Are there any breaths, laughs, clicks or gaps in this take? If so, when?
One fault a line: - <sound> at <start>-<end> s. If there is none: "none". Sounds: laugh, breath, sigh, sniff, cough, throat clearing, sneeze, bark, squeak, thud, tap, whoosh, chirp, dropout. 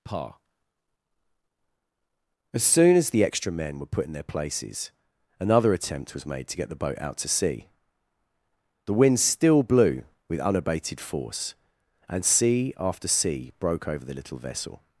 none